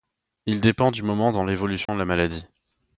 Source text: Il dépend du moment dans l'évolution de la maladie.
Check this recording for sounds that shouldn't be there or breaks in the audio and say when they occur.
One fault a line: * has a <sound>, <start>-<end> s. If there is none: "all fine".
* has a dropout, 1.9-1.9 s